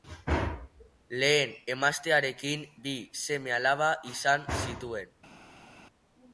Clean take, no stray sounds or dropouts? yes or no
yes